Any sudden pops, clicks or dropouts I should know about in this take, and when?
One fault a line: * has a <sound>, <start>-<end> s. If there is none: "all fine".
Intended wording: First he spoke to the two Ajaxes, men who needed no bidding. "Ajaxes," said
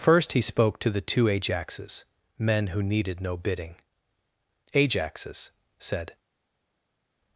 all fine